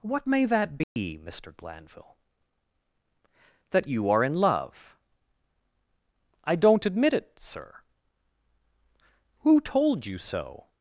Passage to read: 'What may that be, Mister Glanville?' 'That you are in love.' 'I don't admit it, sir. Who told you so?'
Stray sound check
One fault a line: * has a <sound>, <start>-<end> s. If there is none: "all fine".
* has a dropout, 0.8-1.0 s